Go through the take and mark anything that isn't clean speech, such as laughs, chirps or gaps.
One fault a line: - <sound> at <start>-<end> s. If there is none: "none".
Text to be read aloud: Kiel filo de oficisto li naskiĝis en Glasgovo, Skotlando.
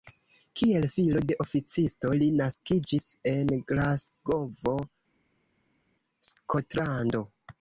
none